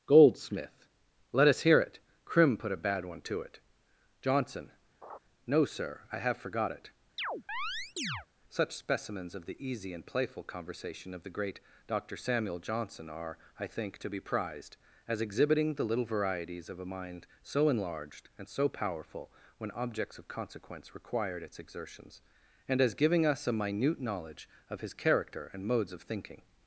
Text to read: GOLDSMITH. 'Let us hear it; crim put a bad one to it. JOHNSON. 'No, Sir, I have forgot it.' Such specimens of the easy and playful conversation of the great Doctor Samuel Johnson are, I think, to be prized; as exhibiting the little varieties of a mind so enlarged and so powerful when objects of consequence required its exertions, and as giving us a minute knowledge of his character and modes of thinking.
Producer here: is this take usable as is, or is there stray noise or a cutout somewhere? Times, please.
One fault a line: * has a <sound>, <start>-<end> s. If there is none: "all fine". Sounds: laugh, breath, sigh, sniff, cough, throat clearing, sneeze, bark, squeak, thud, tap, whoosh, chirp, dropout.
* has a laugh, 5.0-5.2 s
* has a chirp, 7.2-8.3 s